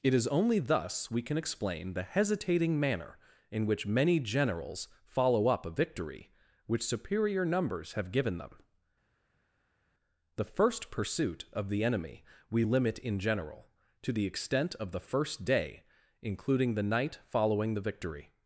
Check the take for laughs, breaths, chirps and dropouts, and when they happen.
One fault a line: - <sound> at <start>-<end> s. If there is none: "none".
none